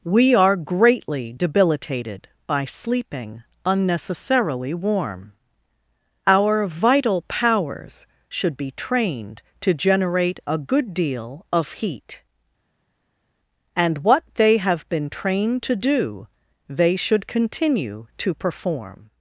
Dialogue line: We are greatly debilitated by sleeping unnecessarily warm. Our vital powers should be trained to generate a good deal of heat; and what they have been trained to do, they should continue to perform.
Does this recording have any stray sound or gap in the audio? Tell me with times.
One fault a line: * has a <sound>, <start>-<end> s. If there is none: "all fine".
all fine